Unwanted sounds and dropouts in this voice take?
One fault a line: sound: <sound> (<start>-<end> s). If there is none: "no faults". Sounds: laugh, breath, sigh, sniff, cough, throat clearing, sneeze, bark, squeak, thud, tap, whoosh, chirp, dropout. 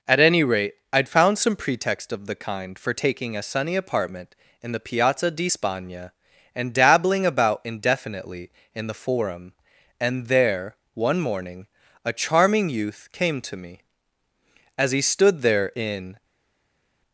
no faults